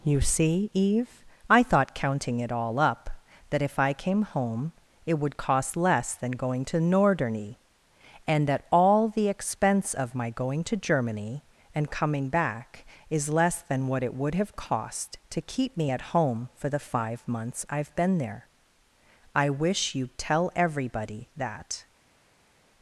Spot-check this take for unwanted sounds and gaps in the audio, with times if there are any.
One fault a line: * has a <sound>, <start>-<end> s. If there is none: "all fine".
all fine